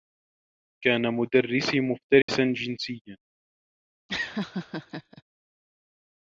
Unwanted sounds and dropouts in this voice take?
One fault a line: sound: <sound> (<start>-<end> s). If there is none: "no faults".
sound: dropout (2.2-2.3 s)
sound: laugh (4.1-5.2 s)